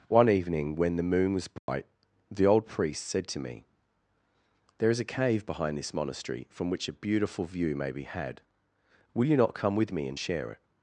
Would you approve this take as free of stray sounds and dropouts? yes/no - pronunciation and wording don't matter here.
no